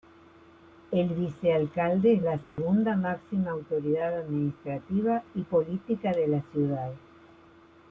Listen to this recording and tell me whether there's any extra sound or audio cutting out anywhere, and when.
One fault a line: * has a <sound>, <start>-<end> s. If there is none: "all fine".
* has a dropout, 2.4-2.6 s